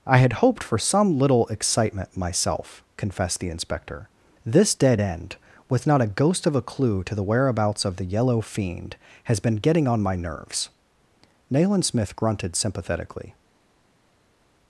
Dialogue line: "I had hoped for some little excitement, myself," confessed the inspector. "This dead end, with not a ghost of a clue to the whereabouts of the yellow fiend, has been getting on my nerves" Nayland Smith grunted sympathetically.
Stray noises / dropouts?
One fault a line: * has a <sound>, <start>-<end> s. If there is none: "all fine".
all fine